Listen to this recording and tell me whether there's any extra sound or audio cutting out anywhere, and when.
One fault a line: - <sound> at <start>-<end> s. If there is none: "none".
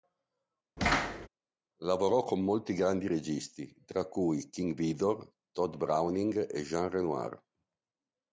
- thud at 0.8-1.3 s